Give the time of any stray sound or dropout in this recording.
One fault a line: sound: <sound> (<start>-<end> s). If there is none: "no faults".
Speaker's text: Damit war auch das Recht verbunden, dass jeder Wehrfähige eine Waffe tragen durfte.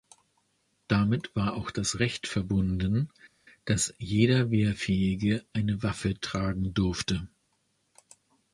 no faults